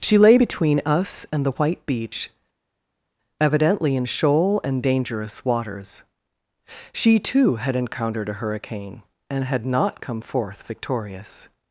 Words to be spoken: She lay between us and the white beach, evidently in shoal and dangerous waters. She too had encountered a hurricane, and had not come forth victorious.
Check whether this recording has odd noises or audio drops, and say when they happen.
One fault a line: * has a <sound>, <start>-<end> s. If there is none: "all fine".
all fine